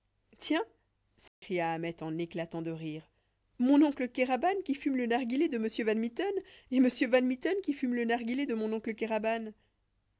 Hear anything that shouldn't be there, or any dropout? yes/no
yes